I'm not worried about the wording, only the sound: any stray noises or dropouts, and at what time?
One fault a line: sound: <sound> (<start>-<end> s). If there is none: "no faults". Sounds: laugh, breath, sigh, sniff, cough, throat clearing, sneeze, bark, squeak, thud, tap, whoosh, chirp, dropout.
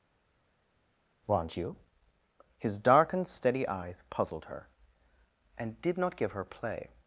no faults